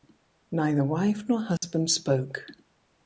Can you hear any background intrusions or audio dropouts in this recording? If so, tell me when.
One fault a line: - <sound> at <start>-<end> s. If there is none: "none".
- dropout at 1.6-1.6 s